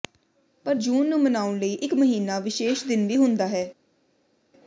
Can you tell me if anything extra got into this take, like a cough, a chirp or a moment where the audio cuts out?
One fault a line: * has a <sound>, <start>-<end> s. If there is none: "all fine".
all fine